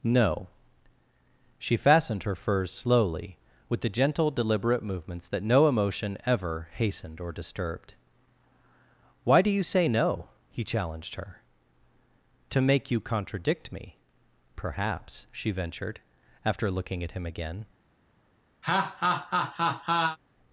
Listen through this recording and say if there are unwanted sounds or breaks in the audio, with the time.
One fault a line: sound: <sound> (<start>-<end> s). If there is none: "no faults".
sound: laugh (18.6-20.2 s)